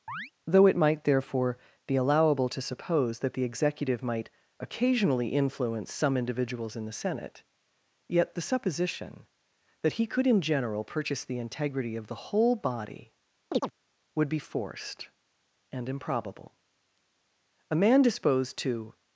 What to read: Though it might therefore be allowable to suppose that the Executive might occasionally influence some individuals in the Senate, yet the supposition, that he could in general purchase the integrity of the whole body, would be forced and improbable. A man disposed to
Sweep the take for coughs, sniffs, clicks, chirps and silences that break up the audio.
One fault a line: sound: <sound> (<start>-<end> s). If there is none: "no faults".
sound: chirp (0.1-0.3 s)
sound: chirp (13.5-13.7 s)